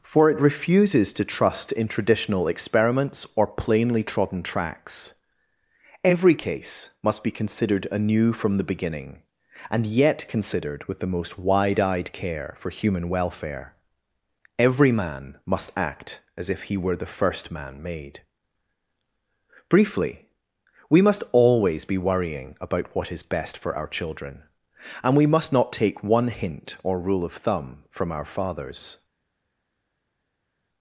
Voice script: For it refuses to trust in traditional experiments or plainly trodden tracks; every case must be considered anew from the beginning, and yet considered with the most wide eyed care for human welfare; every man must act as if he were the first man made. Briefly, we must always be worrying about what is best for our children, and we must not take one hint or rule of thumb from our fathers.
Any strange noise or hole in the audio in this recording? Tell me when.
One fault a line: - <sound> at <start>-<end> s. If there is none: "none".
none